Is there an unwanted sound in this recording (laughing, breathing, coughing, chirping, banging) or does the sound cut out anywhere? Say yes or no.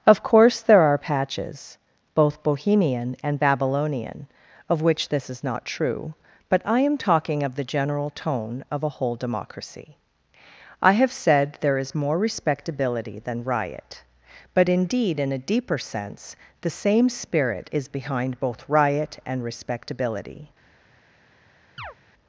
yes